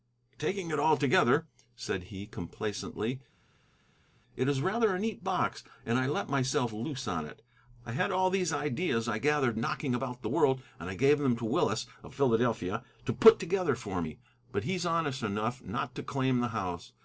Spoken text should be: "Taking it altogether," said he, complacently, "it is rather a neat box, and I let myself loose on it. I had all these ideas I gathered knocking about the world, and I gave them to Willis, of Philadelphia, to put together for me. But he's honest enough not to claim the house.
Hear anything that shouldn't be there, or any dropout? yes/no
no